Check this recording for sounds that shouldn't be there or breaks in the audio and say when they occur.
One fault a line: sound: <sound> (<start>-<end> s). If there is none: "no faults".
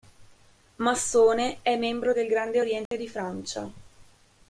sound: dropout (2.9-2.9 s)